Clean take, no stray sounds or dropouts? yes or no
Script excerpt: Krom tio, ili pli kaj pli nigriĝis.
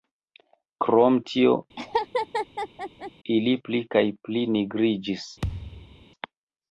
no